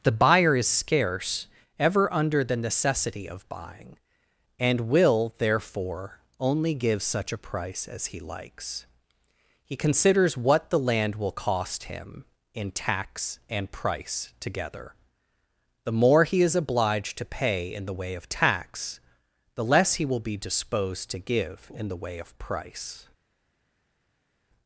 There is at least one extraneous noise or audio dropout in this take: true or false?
false